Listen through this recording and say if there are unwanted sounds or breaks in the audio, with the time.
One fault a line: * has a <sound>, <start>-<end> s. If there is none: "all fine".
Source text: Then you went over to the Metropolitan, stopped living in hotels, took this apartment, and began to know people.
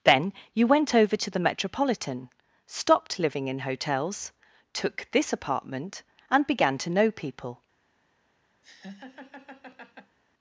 * has a laugh, 8.6-10.2 s